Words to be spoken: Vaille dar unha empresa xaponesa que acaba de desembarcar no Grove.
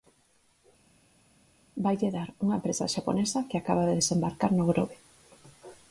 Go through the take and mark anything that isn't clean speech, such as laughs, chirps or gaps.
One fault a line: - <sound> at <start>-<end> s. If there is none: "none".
none